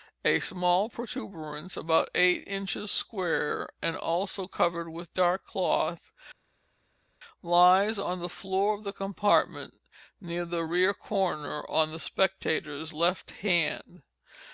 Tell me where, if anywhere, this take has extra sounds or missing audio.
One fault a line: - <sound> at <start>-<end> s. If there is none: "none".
none